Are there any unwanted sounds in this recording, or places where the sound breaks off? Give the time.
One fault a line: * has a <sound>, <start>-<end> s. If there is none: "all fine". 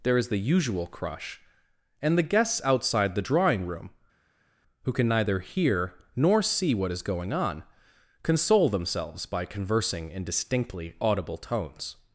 all fine